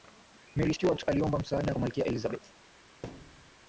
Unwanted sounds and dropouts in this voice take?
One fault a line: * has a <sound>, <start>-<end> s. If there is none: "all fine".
* has a thud, 3.0-3.5 s